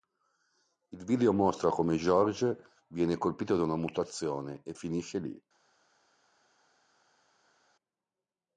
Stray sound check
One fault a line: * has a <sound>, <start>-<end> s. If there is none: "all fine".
all fine